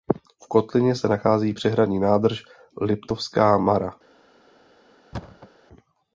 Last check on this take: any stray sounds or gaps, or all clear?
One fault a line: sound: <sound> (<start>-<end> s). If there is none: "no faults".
sound: thud (5.1-5.5 s)